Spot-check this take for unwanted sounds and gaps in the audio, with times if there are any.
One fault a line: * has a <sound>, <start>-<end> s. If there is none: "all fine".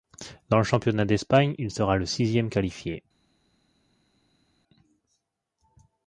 all fine